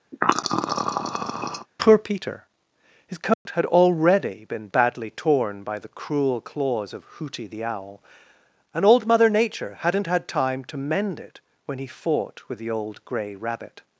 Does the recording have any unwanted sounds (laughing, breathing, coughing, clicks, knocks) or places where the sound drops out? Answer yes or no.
yes